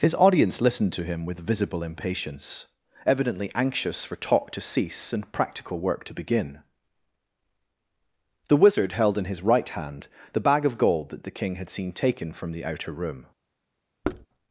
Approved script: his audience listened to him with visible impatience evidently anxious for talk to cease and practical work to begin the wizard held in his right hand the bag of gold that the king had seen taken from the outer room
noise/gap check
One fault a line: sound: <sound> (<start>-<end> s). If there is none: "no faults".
sound: thud (14.0-14.3 s)